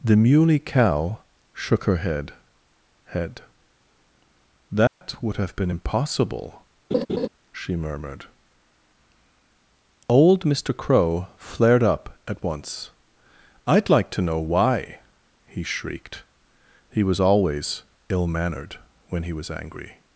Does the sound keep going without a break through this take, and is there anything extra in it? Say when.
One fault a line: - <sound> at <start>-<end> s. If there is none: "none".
- dropout at 4.9-5.0 s
- laugh at 6.9-7.3 s